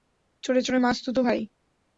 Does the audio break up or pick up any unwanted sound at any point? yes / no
no